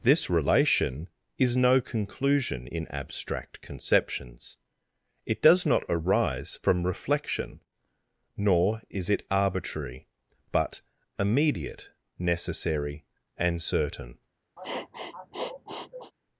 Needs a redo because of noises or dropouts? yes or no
yes